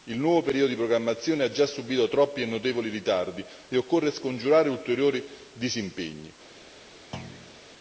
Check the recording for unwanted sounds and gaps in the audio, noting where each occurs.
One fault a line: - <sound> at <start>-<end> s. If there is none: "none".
- thud at 7.1-7.6 s